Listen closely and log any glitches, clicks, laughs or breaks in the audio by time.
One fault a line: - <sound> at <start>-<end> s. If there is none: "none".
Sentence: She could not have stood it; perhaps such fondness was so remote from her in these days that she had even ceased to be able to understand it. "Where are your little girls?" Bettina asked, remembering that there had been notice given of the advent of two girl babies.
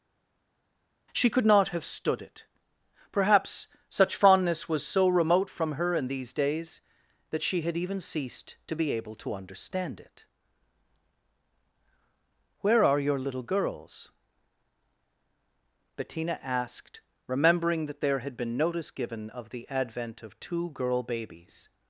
none